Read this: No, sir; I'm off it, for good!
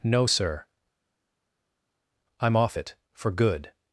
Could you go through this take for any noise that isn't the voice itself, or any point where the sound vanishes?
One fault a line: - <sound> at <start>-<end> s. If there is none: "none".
none